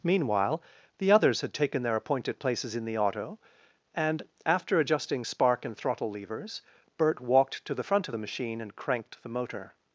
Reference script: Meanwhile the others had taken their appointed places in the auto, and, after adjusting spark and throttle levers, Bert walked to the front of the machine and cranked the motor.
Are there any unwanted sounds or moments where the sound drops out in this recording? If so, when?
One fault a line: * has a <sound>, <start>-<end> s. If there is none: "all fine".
all fine